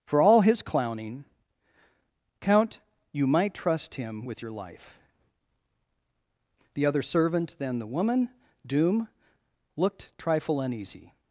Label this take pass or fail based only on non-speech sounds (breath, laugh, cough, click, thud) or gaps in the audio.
pass